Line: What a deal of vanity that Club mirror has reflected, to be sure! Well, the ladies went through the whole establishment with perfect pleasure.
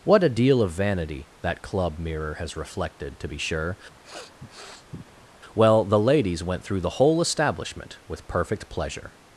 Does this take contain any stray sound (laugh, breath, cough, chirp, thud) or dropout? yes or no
yes